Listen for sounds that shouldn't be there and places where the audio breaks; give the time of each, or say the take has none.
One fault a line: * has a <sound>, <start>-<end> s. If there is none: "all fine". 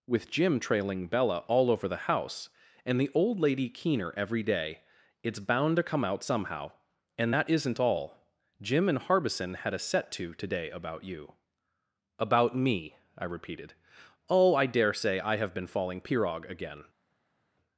all fine